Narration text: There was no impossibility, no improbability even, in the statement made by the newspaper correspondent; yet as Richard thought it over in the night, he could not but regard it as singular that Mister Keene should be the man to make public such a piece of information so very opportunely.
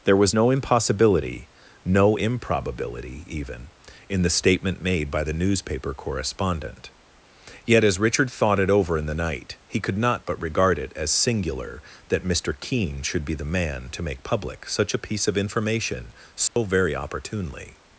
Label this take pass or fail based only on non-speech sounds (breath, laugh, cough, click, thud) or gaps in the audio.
fail